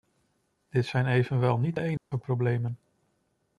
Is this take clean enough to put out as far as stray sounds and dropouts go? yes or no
no